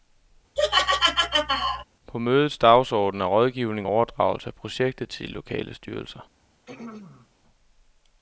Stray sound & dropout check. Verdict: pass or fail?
fail